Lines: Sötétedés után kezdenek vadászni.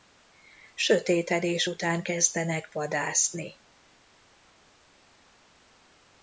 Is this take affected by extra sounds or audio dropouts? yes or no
no